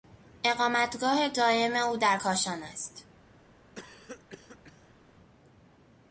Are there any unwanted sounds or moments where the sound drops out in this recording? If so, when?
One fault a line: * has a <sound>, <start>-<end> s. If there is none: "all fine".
* has a cough, 3.8-5.0 s